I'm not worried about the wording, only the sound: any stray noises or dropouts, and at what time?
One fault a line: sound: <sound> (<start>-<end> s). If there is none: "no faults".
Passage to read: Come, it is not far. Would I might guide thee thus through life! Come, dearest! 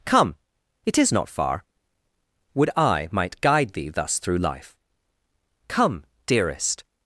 no faults